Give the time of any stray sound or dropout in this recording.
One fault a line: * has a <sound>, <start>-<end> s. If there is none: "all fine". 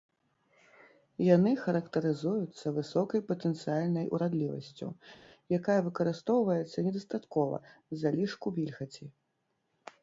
all fine